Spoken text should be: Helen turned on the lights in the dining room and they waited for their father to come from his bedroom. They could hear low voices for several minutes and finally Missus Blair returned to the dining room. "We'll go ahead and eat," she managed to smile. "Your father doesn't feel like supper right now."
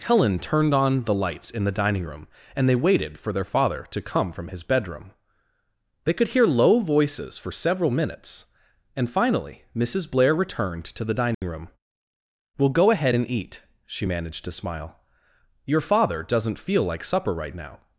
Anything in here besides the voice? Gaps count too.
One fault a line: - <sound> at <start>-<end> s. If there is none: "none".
- dropout at 11.3-11.4 s